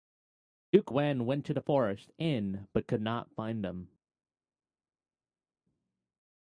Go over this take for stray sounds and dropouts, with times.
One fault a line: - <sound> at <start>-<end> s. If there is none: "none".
none